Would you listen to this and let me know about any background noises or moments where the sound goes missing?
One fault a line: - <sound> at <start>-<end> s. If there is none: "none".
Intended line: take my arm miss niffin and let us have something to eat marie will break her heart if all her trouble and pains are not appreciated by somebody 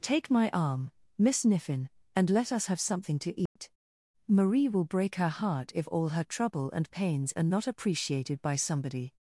- dropout at 3.5-3.6 s